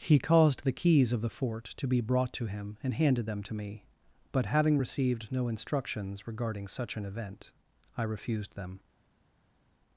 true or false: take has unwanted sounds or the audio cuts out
false